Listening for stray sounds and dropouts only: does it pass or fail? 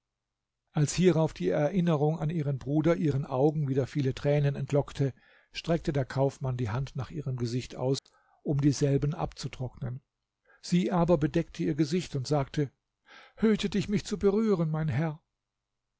fail